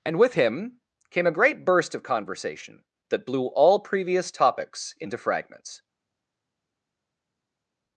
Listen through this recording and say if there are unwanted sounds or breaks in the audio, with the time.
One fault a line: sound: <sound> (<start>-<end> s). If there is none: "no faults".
no faults